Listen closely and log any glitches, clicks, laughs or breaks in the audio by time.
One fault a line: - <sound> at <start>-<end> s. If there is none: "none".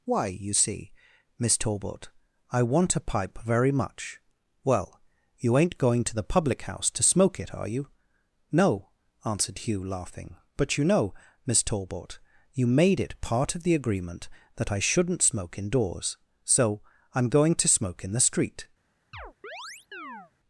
- chirp at 19.1-20.3 s